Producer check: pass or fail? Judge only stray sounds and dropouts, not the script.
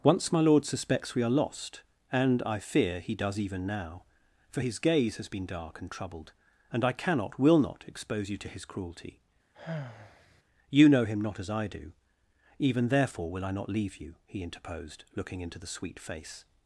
fail